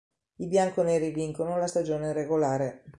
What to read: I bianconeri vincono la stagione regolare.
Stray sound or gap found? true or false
false